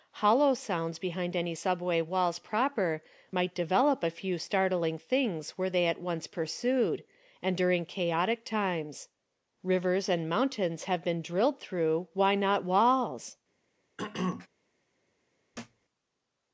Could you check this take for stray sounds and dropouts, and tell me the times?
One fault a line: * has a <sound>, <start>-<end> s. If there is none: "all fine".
* has a throat clearing, 14.0-14.5 s
* has a thud, 15.5-15.9 s